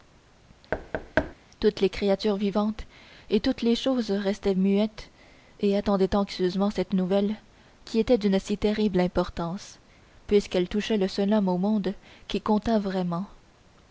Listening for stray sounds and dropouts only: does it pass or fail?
fail